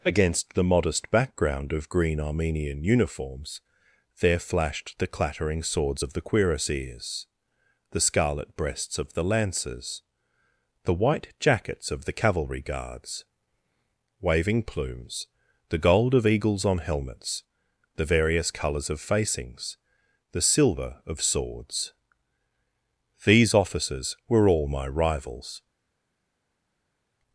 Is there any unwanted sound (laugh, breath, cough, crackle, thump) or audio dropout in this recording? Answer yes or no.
no